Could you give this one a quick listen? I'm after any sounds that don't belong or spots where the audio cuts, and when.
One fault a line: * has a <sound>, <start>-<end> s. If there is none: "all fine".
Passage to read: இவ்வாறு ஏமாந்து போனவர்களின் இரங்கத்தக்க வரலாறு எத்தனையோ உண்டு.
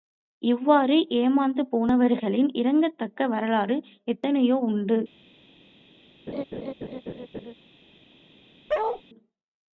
* has a laugh, 6.3-7.5 s
* has a bark, 8.7-9.0 s